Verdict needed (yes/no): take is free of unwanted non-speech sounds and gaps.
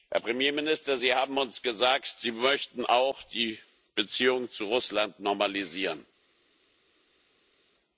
yes